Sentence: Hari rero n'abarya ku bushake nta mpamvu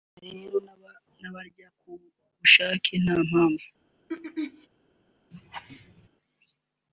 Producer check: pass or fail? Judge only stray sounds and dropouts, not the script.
fail